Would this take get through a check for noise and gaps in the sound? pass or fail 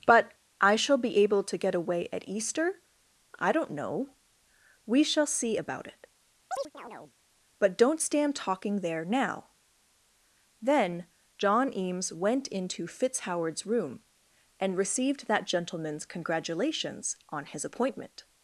fail